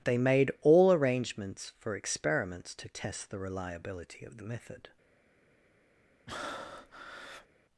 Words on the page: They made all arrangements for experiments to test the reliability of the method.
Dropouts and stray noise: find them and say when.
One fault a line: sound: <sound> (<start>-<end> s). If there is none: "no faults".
sound: breath (6.3-7.5 s)